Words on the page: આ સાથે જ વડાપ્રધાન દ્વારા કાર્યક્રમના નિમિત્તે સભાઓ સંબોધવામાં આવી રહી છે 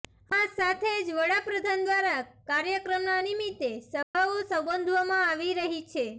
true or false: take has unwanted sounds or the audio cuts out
true